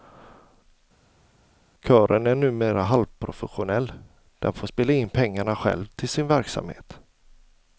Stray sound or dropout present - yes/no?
no